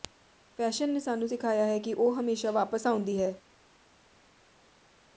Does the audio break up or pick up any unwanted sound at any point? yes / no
no